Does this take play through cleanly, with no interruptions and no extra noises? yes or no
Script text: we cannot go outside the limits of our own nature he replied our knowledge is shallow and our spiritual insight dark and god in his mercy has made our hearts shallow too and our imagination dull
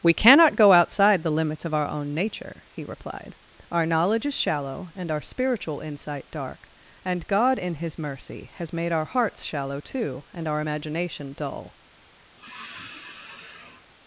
no